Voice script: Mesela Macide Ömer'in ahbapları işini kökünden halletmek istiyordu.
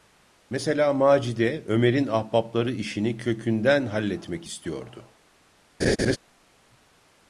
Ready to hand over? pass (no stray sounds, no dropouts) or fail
fail